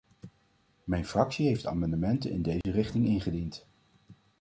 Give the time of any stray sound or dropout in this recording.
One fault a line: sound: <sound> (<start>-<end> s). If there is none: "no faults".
sound: dropout (2.6-2.6 s)